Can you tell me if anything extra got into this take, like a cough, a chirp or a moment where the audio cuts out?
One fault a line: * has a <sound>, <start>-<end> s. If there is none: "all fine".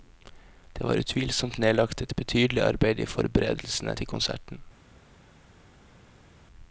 all fine